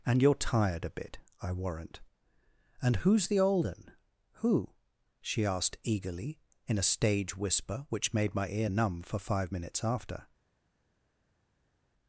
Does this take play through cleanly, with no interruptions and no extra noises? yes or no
yes